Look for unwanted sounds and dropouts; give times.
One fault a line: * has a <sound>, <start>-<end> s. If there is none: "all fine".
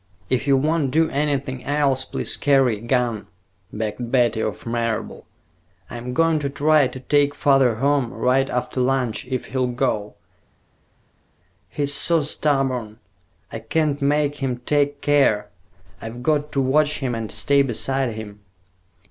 all fine